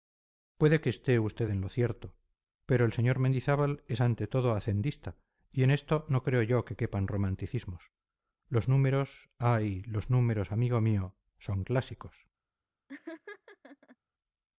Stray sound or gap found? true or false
true